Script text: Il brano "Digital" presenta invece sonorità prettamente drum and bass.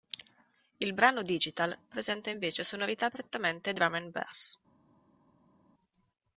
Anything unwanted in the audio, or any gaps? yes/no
no